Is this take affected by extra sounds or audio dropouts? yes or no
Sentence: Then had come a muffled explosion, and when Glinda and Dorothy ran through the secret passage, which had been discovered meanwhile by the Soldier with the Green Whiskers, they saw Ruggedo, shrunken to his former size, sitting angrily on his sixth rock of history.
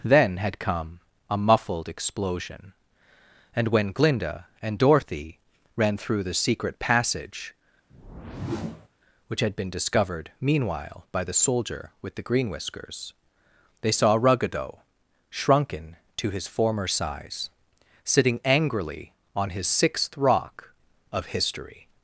yes